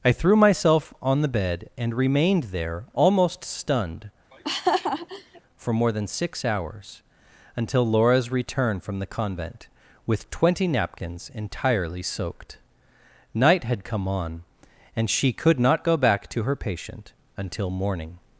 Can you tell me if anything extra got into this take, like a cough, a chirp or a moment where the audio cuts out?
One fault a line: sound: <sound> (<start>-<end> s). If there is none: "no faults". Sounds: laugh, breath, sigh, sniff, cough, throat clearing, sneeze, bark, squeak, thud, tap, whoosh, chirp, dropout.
sound: laugh (4.3-5.4 s)